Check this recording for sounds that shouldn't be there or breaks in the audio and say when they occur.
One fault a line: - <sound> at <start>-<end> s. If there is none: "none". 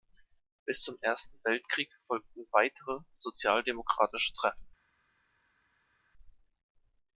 none